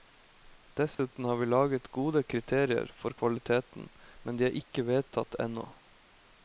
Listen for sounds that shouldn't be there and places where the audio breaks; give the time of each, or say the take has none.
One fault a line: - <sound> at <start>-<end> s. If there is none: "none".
- dropout at 0.9-1.0 s